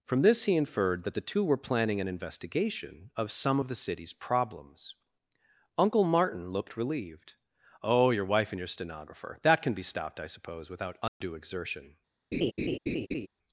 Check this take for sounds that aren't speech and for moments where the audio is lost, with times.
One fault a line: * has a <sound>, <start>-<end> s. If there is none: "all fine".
* has a dropout, 11.1-11.2 s
* has a laugh, 12.3-13.3 s